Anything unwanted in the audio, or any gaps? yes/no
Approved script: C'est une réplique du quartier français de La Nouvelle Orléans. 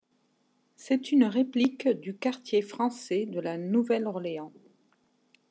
no